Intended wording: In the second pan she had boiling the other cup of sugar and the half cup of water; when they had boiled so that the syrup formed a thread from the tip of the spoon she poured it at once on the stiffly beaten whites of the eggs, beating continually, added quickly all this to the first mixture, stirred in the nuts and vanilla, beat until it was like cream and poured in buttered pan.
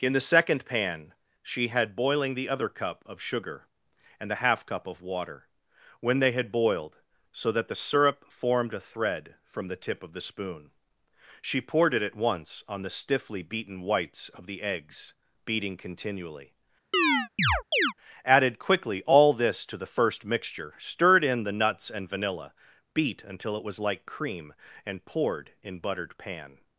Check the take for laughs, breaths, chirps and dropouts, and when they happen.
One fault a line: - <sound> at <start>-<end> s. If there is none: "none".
- chirp at 16.9-17.9 s